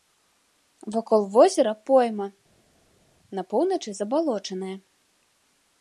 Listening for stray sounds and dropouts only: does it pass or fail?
pass